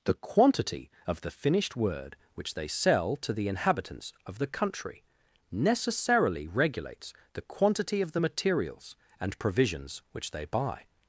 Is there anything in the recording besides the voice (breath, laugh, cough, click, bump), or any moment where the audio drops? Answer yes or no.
no